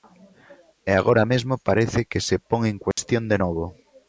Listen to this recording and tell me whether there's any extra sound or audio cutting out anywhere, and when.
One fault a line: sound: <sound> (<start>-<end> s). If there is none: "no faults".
sound: dropout (2.9-3.0 s)